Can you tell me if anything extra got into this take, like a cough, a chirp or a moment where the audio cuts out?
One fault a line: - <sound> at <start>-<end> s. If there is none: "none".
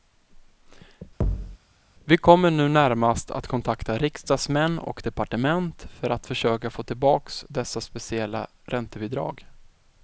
- thud at 1.2-1.6 s